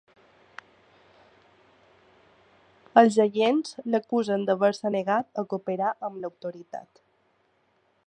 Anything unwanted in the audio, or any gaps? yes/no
no